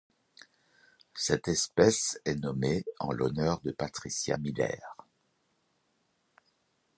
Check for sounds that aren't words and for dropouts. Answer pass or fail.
pass